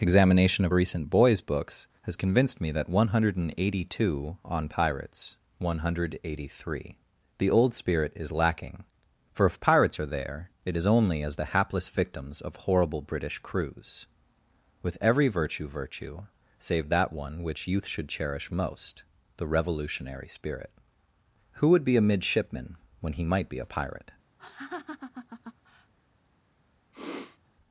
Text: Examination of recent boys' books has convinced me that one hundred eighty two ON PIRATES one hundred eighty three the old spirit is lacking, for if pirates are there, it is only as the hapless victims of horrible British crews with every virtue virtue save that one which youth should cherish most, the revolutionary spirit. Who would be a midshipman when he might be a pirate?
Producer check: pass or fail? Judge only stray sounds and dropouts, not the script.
fail